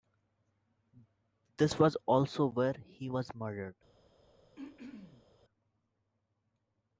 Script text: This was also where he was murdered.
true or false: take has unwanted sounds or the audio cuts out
true